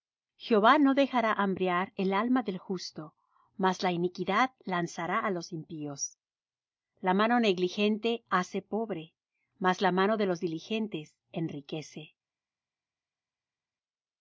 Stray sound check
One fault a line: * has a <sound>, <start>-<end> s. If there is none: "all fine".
all fine